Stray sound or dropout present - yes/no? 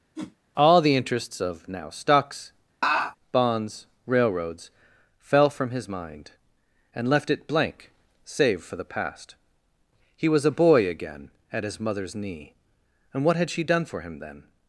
yes